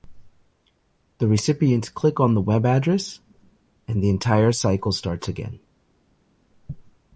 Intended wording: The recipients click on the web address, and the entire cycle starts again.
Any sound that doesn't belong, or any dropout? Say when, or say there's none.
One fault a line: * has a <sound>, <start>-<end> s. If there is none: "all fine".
all fine